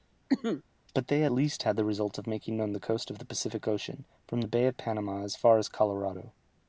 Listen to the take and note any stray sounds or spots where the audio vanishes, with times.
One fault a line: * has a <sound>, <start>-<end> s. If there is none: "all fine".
* has a cough, 0.3-0.6 s